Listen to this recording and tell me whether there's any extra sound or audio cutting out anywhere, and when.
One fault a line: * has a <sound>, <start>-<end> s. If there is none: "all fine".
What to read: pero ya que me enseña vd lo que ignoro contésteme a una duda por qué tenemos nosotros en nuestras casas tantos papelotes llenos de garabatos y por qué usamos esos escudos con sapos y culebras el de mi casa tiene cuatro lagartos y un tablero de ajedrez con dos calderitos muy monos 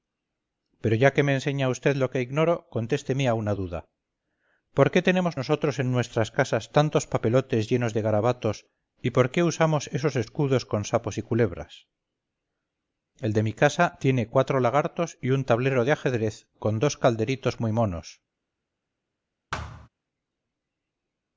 * has a thud, 19.5-19.9 s